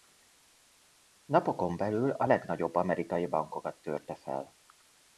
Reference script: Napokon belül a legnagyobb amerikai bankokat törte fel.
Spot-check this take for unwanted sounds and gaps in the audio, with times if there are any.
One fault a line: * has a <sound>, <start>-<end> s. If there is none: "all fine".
all fine